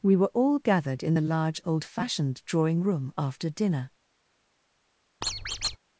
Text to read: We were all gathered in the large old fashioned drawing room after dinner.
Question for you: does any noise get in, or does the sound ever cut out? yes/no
yes